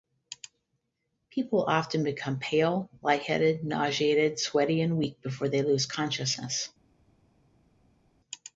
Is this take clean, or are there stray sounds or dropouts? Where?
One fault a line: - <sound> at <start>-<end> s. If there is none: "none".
none